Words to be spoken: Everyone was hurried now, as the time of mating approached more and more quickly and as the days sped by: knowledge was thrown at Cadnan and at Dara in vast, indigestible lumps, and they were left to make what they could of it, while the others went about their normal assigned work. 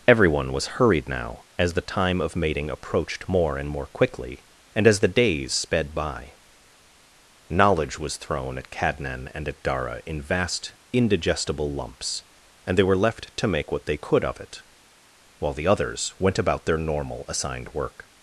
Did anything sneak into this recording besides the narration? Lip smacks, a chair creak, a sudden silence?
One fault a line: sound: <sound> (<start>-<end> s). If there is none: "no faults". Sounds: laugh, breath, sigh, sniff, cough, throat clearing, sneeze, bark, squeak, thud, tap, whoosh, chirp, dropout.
no faults